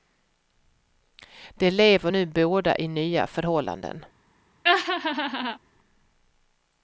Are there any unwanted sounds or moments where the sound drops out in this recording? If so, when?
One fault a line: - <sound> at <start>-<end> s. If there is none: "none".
- laugh at 4.6-5.6 s